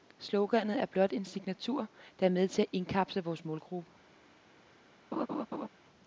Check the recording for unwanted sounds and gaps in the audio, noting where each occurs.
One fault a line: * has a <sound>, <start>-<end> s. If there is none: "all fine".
* has a laugh, 5.1-5.7 s